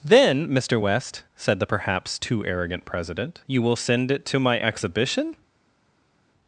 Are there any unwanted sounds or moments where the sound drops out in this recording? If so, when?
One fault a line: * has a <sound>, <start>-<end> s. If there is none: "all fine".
all fine